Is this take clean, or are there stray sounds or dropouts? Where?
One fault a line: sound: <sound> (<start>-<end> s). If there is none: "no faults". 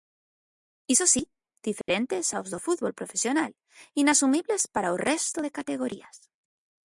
sound: dropout (1.8-1.9 s)